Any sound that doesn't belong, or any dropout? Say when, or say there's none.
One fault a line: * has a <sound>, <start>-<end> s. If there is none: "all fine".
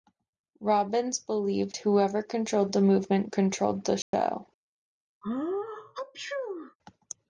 * has a dropout, 4.0-4.1 s
* has a sneeze, 5.2-6.8 s